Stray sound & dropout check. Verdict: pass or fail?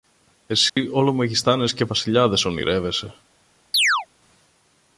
fail